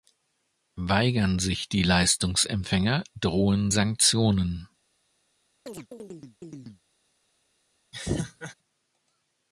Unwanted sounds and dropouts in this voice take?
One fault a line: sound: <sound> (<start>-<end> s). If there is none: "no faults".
sound: chirp (5.7-6.8 s)
sound: laugh (7.9-8.5 s)